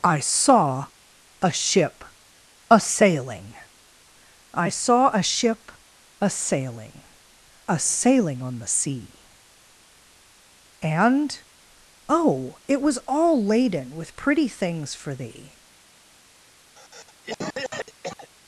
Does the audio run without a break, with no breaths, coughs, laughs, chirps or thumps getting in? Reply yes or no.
no